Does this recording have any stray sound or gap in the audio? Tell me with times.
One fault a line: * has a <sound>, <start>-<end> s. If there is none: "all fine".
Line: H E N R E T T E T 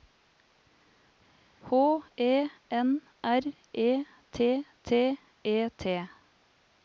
all fine